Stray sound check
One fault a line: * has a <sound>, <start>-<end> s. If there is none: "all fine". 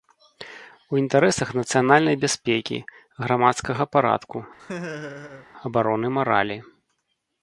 * has a laugh, 4.6-5.5 s